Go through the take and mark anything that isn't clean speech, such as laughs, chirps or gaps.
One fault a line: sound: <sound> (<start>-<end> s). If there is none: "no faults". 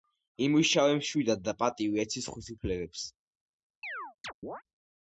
sound: chirp (3.8-4.6 s)